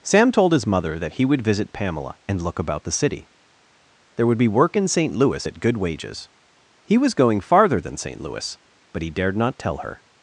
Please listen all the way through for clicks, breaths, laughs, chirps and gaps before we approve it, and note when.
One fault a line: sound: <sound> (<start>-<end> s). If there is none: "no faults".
no faults